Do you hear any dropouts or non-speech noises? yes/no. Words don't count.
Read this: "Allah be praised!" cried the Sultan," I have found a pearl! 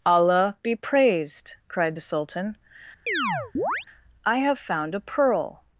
yes